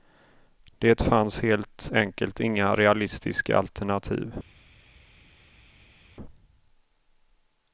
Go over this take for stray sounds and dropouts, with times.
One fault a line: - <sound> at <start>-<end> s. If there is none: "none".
none